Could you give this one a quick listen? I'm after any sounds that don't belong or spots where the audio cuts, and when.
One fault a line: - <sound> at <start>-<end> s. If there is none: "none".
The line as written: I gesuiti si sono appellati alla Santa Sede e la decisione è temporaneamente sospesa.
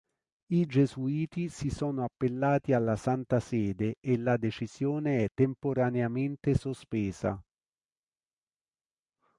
none